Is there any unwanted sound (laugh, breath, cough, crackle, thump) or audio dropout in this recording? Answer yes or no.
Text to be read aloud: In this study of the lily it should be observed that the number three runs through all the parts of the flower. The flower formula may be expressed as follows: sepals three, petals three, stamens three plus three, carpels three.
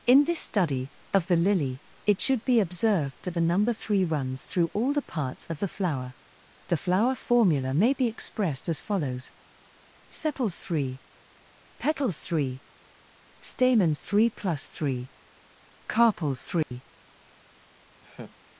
yes